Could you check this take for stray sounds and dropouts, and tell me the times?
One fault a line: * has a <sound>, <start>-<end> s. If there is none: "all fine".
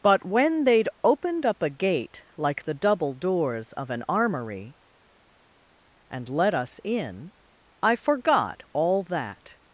all fine